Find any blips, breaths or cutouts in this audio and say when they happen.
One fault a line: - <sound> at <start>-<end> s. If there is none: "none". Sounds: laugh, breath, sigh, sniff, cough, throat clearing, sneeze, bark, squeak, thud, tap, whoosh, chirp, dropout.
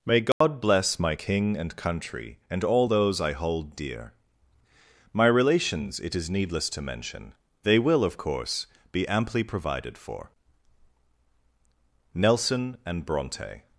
- dropout at 0.3-0.4 s